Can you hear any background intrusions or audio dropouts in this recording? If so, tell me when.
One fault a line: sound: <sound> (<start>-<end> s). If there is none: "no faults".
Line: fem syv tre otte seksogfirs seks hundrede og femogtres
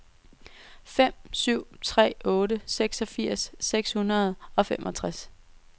no faults